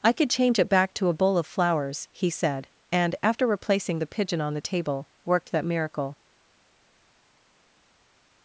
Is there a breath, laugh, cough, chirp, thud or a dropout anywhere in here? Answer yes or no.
no